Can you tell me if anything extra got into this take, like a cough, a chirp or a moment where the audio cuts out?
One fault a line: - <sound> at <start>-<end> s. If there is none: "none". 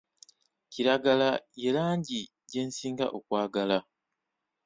none